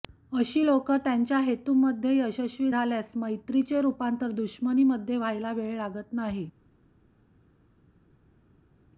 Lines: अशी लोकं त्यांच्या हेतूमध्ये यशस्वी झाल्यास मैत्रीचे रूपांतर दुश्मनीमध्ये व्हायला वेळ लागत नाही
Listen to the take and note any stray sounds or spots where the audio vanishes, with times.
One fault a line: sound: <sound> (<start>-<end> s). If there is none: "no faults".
no faults